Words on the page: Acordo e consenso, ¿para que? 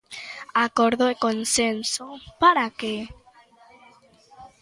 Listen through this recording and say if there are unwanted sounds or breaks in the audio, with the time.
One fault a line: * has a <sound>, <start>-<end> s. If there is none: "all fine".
all fine